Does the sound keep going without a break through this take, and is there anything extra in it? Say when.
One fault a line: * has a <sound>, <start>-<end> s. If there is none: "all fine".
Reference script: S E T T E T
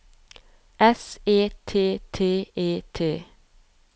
all fine